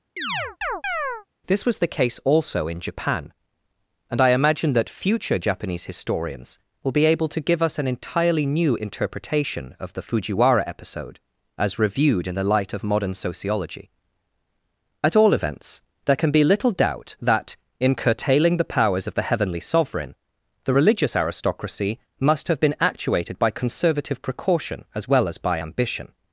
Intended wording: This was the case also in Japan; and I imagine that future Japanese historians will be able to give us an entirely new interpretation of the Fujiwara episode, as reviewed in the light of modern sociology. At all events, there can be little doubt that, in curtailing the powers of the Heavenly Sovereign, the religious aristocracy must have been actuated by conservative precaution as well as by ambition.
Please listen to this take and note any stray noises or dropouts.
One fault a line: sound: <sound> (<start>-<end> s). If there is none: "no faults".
sound: chirp (0.2-1.3 s)